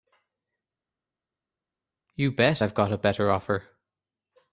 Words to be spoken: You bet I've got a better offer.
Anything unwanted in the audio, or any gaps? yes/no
no